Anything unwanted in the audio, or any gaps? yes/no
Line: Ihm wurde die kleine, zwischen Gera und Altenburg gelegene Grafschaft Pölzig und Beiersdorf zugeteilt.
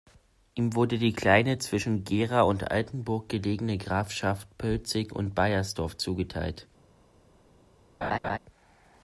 yes